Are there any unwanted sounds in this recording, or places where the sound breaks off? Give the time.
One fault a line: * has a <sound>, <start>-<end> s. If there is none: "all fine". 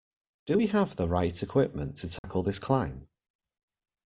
* has a dropout, 2.2-2.2 s